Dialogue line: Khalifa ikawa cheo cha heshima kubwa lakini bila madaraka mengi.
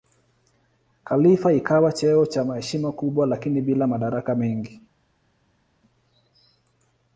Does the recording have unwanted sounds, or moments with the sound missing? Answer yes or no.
no